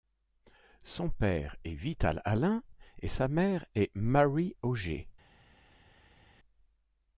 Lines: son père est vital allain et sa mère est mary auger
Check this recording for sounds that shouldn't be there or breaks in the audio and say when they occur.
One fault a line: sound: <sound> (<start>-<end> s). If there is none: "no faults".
no faults